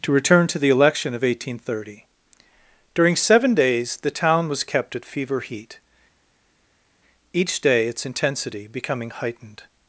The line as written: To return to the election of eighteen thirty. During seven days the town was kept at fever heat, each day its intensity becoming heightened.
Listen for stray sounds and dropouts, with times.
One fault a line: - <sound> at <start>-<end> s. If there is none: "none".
none